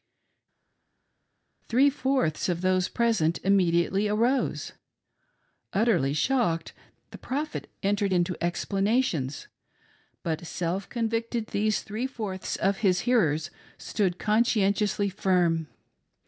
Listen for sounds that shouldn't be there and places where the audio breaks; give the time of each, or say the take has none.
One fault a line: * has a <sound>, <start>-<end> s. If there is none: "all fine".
all fine